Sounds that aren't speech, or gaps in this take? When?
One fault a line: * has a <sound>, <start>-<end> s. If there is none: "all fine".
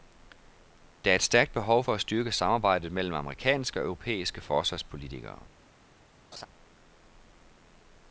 * has a laugh, 6.3-6.5 s